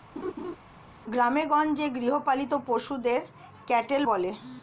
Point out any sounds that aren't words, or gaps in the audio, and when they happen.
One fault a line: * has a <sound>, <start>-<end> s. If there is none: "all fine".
* has a laugh, 0.2-0.6 s